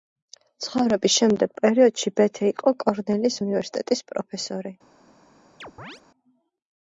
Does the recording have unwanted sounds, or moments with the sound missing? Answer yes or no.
yes